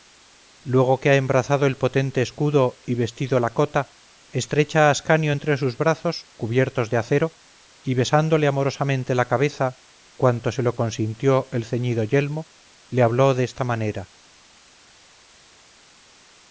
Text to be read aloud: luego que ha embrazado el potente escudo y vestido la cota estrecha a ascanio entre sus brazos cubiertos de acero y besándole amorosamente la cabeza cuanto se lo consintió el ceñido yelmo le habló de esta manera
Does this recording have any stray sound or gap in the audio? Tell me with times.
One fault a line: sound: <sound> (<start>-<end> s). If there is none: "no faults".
no faults